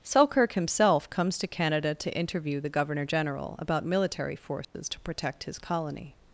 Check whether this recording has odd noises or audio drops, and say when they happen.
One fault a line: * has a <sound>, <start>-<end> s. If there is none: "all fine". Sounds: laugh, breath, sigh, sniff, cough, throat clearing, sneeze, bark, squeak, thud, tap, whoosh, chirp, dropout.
* has a dropout, 4.6-4.7 s